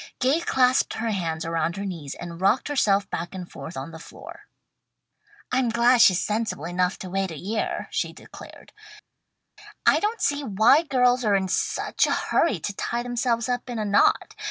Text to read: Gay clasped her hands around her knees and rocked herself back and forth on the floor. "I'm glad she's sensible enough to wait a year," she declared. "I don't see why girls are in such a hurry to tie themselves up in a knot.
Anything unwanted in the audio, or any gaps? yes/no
no